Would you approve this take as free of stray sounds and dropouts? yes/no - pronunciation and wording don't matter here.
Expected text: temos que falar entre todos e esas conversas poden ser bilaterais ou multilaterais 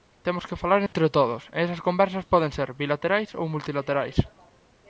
no